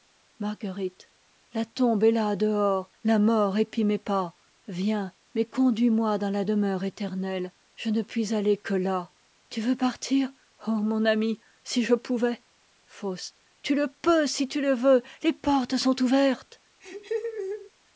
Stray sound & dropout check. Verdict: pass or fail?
fail